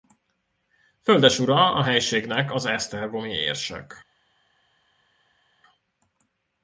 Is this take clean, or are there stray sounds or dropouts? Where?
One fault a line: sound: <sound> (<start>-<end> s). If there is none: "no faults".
no faults